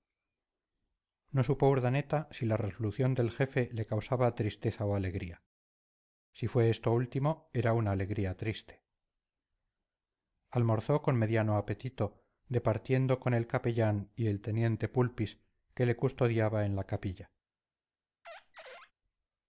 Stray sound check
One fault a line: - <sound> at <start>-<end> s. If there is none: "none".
- squeak at 18.2-18.9 s